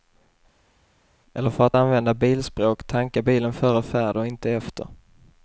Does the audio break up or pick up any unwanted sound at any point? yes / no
no